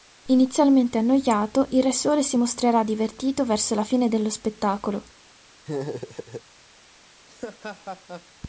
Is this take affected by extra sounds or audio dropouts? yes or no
yes